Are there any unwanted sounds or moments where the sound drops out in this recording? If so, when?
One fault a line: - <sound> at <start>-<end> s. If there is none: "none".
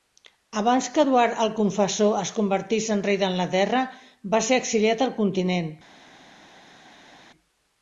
none